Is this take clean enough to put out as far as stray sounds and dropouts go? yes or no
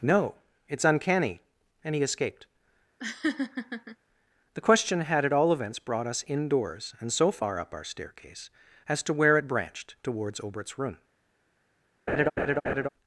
no